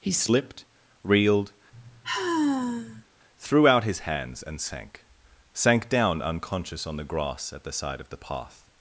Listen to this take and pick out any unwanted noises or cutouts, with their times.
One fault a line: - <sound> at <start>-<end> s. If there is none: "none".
- sigh at 1.7-3.0 s